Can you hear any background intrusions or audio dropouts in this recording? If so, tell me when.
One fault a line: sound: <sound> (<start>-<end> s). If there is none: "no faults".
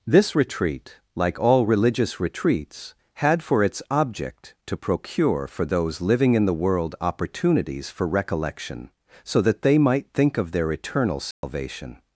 sound: dropout (11.3-11.4 s)